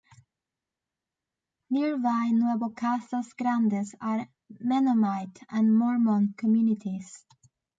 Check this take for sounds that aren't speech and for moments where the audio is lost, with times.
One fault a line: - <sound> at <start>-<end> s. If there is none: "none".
none